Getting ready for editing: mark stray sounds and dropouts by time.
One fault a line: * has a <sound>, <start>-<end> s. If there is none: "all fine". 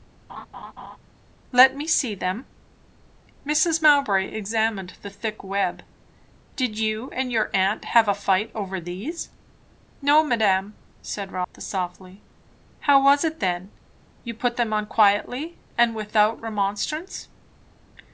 * has a laugh, 0.3-1.0 s
* has a dropout, 11.4-11.5 s